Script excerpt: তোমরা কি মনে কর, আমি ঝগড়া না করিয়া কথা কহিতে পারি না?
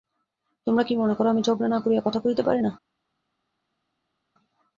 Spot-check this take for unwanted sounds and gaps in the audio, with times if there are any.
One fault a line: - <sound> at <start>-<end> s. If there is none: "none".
none